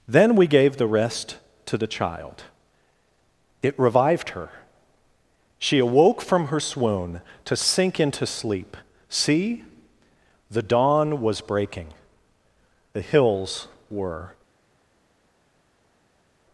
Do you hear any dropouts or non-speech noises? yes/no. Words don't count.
no